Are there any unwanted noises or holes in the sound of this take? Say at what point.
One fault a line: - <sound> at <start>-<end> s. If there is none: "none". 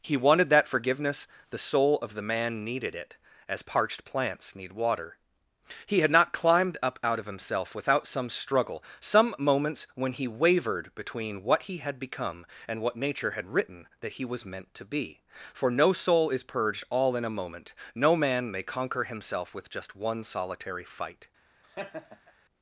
- laugh at 21.6-22.3 s